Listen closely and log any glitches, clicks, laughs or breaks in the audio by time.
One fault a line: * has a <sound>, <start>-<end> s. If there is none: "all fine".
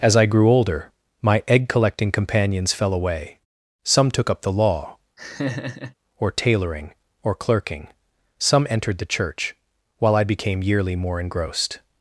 * has a laugh, 5.2-5.9 s